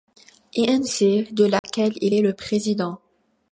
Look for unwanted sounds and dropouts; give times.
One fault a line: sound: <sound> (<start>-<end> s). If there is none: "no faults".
sound: dropout (1.6-1.6 s)